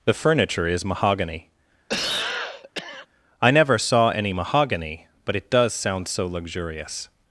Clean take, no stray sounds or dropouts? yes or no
no